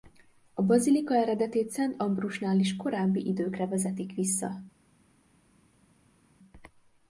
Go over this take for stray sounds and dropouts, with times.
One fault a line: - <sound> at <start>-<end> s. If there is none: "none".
none